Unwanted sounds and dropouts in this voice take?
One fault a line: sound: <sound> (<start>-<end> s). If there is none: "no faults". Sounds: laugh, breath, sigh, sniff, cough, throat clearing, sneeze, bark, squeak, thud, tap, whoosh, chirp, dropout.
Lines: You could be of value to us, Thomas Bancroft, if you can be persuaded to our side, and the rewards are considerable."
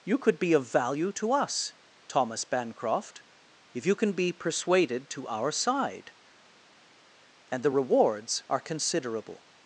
no faults